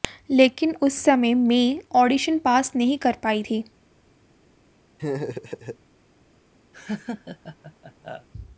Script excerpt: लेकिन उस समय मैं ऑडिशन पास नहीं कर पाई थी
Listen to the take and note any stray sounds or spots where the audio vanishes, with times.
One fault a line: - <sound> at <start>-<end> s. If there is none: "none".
- laugh at 5.0-5.8 s
- laugh at 6.7-8.3 s